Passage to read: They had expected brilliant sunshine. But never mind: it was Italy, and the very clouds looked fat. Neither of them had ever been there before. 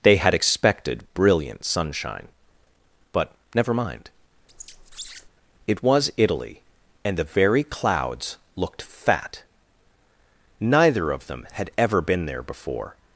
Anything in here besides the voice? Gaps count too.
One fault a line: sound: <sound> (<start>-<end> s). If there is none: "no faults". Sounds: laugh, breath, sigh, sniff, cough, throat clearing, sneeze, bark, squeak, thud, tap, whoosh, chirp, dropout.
sound: squeak (4.5-5.3 s)